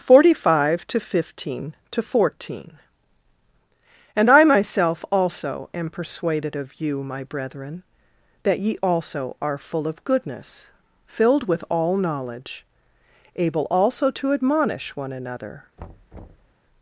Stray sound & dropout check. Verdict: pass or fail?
fail